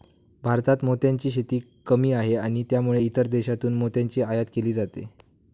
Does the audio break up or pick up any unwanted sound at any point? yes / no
no